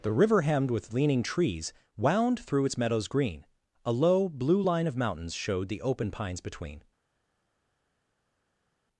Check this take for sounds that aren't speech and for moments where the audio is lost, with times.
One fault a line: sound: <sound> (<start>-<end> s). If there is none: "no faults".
no faults